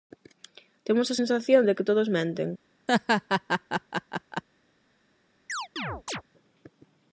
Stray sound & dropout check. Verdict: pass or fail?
fail